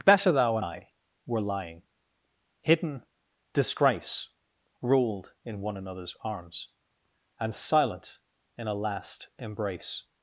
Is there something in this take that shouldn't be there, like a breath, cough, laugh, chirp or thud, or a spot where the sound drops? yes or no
no